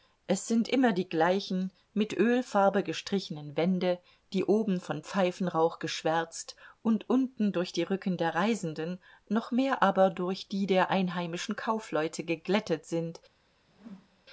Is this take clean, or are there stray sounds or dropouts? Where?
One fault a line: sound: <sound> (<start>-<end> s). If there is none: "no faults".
sound: whoosh (13.7-14.2 s)